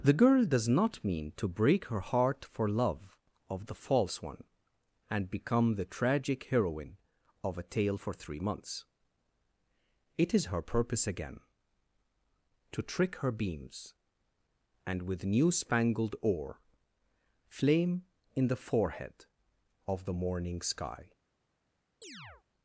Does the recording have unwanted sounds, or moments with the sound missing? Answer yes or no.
yes